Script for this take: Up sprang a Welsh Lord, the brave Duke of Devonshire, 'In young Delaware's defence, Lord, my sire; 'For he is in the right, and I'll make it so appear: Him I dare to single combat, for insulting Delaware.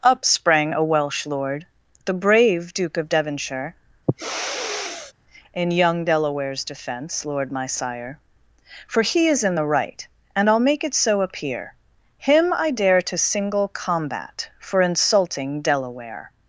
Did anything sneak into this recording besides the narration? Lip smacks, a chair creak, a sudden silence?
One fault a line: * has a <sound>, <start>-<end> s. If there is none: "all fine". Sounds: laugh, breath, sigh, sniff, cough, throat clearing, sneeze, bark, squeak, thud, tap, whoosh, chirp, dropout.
* has a sniff, 4.1-5.1 s